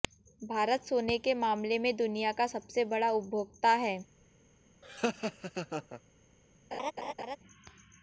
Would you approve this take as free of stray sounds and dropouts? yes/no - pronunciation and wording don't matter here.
no